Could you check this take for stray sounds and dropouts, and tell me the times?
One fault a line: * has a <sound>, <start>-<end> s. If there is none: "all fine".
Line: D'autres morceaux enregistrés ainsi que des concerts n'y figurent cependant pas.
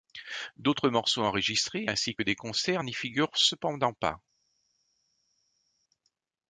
all fine